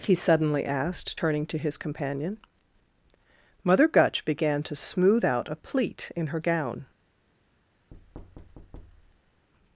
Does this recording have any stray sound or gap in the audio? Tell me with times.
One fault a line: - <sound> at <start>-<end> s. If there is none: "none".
- thud at 7.9-9.5 s